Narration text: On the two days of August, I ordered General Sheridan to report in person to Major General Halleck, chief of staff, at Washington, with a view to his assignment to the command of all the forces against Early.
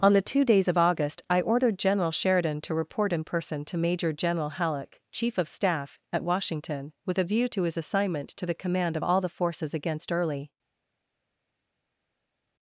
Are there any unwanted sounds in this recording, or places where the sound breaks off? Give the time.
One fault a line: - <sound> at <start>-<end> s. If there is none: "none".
none